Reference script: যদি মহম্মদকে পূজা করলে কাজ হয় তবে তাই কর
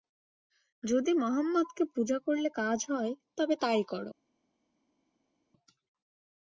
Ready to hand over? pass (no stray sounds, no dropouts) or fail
pass